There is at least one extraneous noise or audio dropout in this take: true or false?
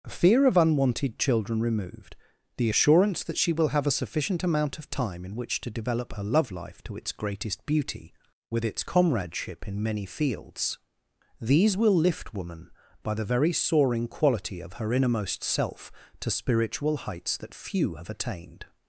false